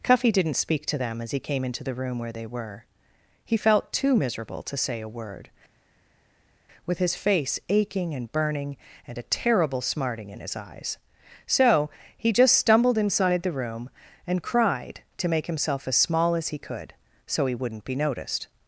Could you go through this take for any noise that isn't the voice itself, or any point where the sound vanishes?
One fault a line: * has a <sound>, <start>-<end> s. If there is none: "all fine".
all fine